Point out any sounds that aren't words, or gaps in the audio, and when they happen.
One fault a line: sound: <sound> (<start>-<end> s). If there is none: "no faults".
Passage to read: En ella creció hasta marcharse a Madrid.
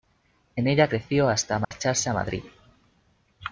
sound: dropout (1.6-1.7 s)